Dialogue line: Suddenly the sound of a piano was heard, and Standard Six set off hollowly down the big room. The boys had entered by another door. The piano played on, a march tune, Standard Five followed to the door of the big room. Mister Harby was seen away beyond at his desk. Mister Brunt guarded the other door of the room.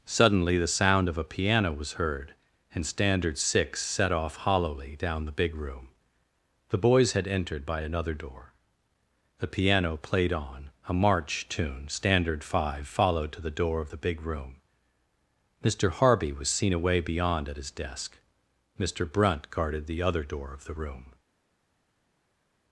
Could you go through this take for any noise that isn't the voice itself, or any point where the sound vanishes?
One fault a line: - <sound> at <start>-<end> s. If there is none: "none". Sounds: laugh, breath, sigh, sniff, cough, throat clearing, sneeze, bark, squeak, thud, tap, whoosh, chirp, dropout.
none